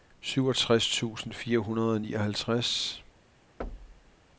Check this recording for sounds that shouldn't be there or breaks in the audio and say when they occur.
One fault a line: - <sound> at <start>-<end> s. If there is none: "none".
- thud at 3.6-4.2 s